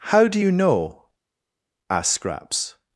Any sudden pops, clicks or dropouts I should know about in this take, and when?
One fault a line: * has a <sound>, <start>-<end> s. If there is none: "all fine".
all fine